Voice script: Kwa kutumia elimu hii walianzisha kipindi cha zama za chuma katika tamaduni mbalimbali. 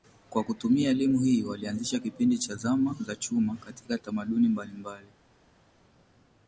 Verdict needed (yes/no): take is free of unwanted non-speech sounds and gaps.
yes